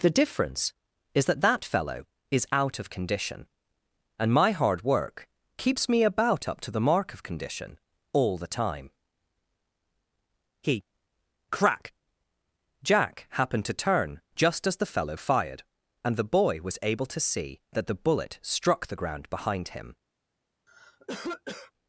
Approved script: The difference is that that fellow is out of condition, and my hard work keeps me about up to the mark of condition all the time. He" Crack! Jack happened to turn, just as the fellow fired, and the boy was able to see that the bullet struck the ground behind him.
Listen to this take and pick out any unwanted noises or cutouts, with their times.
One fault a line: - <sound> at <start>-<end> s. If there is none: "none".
- cough at 20.7-21.7 s